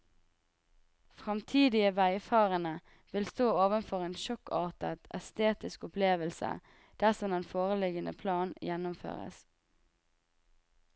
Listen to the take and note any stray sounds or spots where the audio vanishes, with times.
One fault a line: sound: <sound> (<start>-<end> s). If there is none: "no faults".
no faults